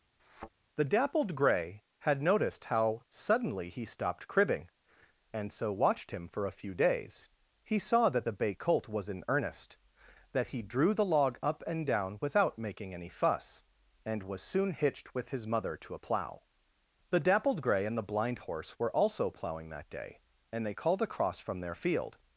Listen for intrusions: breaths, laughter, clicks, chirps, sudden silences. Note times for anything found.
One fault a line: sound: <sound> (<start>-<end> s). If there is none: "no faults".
sound: thud (0.2-0.5 s)